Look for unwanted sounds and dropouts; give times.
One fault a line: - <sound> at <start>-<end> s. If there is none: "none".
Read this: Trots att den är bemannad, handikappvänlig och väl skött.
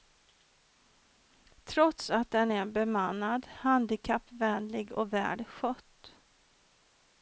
none